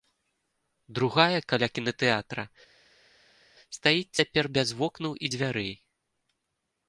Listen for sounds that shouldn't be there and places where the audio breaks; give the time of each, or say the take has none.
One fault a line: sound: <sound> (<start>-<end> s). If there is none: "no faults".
no faults